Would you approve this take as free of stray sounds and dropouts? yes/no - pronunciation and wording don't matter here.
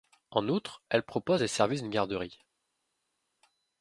yes